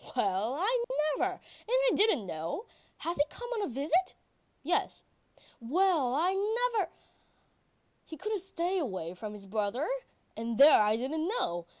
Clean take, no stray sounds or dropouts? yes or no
no